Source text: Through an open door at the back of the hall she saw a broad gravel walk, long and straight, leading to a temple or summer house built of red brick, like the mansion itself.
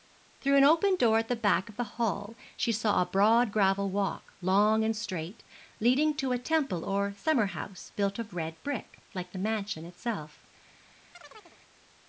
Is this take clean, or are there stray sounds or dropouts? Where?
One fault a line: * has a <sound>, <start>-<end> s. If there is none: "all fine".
* has a chirp, 11.1-11.6 s